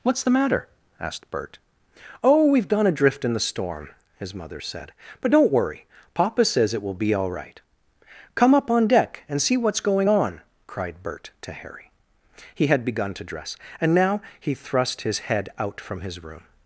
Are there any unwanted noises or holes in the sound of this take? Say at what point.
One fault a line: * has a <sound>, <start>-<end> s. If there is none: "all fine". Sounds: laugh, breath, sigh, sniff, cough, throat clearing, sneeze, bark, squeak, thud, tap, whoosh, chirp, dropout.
all fine